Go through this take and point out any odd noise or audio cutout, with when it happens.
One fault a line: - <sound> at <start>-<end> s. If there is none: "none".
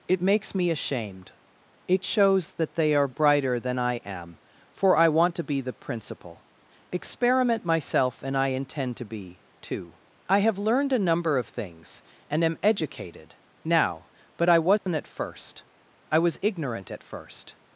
- dropout at 14.8-14.9 s